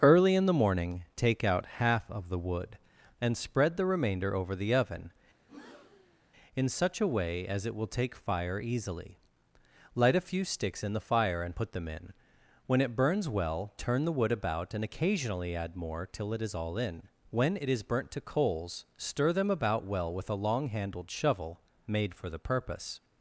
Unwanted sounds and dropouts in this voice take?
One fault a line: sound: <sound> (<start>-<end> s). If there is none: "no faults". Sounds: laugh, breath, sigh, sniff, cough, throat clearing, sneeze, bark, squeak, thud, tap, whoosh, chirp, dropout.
sound: breath (5.4-6.2 s)